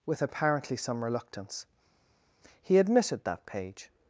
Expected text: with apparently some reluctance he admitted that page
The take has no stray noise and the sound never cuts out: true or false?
true